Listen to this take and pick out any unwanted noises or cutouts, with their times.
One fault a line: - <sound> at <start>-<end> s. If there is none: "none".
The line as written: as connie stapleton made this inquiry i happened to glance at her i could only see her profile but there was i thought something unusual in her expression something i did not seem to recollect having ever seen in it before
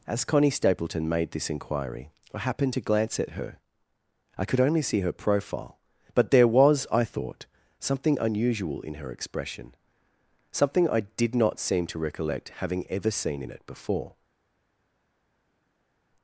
none